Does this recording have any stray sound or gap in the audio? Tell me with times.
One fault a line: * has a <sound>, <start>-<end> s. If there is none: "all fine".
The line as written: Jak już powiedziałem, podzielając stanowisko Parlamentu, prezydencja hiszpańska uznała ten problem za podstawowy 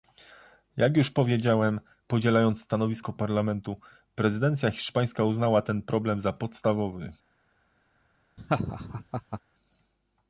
* has a laugh, 8.4-9.4 s